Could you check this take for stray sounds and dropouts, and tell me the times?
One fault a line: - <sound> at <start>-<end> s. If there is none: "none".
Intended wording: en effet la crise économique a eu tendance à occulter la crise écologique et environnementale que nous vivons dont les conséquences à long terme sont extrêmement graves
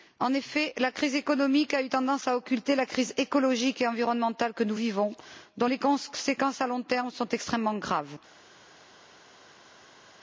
none